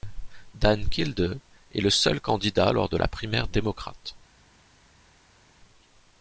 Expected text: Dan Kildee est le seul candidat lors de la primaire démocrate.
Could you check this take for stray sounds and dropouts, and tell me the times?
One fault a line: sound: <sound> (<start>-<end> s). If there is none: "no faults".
no faults